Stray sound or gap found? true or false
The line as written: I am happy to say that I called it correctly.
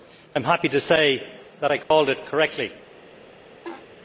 true